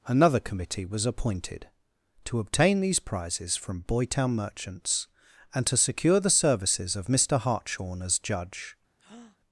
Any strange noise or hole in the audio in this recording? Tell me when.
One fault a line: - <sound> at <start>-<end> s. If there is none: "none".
- breath at 9.0-9.4 s